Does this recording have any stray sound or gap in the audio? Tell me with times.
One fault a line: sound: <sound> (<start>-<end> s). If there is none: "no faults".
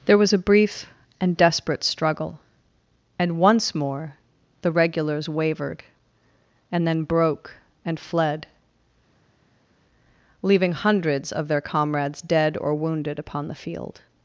no faults